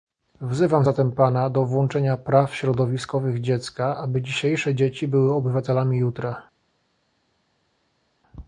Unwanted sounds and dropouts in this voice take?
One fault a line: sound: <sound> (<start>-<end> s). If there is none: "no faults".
no faults